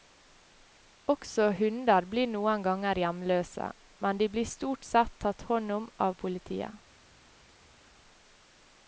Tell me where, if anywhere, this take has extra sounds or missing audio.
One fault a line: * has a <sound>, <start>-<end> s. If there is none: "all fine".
all fine